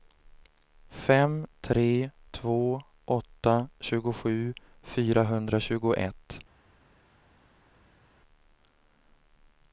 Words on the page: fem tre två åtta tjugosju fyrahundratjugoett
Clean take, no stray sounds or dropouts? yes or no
yes